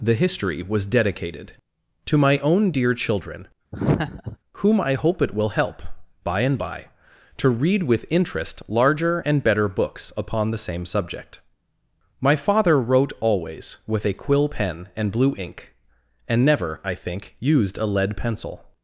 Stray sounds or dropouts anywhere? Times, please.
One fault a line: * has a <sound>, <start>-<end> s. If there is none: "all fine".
* has a laugh, 3.7-4.4 s